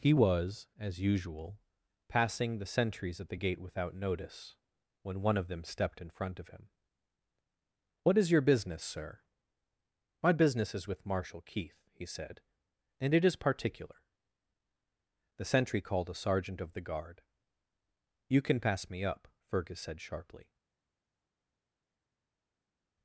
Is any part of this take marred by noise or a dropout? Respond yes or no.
no